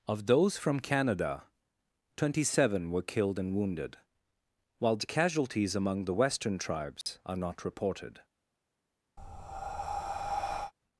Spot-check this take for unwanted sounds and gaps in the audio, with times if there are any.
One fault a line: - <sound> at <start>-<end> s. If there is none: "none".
- dropout at 7.0-7.1 s
- breath at 9.2-10.7 s